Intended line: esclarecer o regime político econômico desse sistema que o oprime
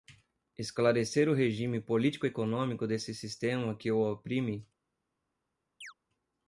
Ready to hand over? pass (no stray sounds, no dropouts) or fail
fail